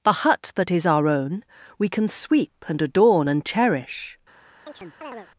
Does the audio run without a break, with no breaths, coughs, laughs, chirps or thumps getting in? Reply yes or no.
no